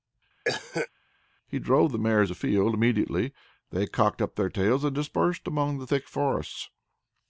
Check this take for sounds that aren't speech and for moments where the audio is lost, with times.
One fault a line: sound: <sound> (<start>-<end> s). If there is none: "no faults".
sound: cough (0.4-0.9 s)